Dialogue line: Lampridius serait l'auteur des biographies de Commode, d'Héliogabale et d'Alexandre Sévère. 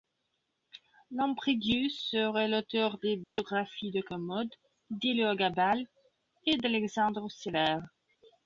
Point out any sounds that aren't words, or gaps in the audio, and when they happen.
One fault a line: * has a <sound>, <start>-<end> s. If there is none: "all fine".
* has a dropout, 3.2-3.4 s